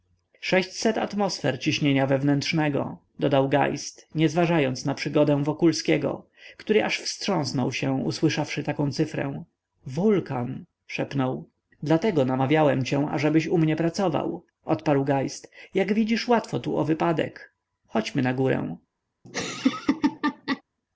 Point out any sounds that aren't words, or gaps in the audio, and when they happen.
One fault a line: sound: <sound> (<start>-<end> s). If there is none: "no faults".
sound: laugh (19.2-20.6 s)